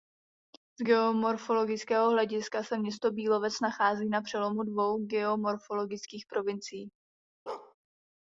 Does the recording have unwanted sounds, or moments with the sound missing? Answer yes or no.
yes